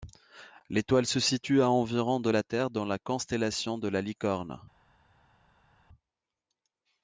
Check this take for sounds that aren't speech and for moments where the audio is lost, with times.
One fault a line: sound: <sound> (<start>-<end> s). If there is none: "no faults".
no faults